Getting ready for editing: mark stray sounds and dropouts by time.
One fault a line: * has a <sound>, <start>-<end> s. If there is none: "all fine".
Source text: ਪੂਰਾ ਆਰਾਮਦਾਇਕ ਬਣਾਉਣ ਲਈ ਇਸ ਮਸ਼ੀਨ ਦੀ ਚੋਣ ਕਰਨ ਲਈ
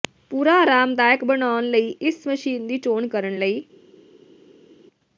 all fine